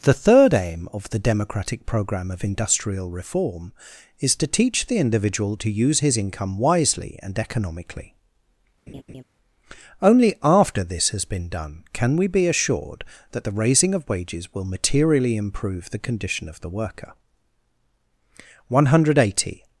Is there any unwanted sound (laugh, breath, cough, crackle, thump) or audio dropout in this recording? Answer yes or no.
yes